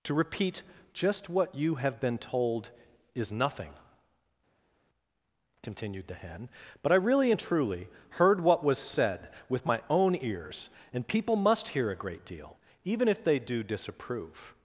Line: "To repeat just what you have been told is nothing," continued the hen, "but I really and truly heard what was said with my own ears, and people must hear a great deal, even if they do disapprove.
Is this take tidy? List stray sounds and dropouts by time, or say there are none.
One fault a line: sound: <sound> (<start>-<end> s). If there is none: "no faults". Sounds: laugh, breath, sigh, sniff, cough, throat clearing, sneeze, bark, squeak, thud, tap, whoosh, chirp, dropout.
no faults